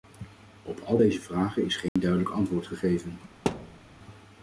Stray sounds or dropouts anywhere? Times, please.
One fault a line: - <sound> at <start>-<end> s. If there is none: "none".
- dropout at 1.9-2.0 s
- thud at 3.5-3.8 s